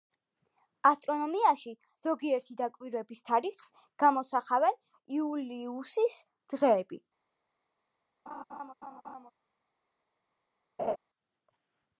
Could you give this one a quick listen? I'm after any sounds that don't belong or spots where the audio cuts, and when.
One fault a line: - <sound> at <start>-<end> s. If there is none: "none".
- laugh at 8.3-9.3 s
- laugh at 10.8-11.0 s